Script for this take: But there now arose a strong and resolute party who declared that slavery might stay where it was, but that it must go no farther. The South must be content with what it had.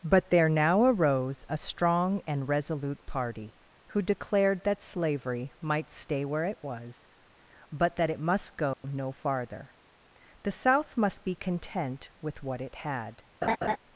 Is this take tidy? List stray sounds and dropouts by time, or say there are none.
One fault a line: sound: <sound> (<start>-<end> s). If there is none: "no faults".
sound: dropout (8.7-8.8 s)
sound: laugh (13.4-13.8 s)